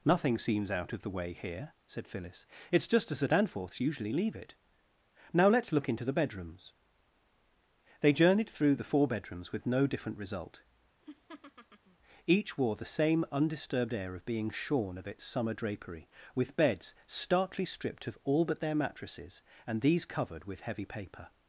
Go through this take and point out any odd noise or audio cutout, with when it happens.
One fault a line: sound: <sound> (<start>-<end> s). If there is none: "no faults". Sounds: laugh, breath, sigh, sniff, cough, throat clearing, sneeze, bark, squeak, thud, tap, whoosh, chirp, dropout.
sound: laugh (11.0-12.0 s)